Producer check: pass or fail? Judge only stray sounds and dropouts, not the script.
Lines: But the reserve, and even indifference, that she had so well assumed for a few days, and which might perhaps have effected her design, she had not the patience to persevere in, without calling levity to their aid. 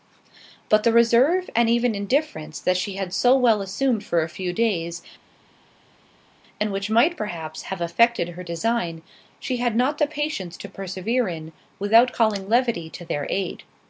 pass